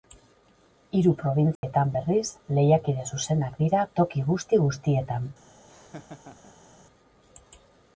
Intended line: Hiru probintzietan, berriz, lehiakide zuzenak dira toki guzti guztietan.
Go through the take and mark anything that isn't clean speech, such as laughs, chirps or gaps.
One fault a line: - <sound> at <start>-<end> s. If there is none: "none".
- dropout at 1.6-1.6 s
- laugh at 5.7-6.7 s